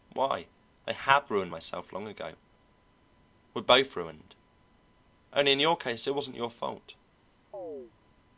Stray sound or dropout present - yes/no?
yes